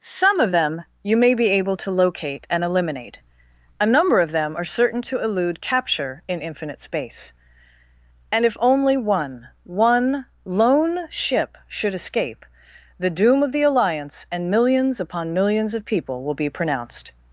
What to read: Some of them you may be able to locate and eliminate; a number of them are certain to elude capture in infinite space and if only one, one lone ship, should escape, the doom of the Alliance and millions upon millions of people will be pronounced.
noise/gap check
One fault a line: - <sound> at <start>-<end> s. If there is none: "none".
none